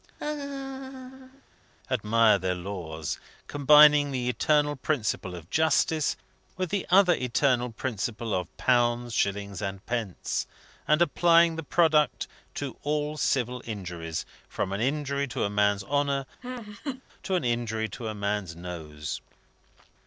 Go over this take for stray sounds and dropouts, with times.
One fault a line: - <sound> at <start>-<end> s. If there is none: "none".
- laugh at 0.2-1.4 s
- laugh at 16.4-17.0 s